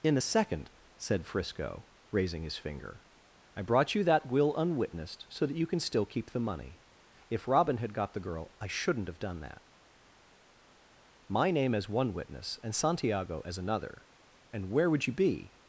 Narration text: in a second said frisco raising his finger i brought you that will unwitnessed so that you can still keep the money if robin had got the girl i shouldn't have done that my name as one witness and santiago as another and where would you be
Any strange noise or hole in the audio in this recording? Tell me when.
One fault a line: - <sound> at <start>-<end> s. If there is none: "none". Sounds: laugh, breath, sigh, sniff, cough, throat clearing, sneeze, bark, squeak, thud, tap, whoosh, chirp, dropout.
none